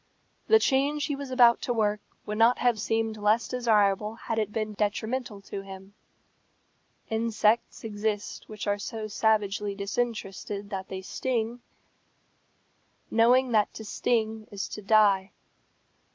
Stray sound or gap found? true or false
false